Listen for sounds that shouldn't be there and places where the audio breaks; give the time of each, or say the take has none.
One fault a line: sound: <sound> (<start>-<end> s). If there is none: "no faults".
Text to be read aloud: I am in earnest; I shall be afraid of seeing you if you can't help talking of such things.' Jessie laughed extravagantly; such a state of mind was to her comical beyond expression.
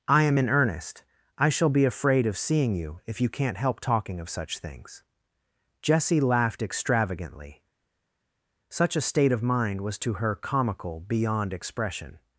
no faults